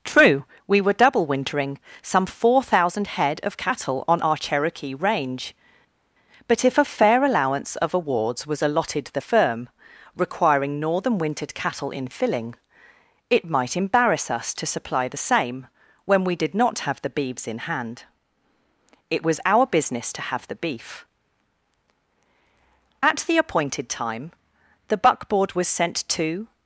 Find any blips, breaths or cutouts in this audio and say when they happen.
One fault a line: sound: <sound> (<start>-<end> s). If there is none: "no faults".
no faults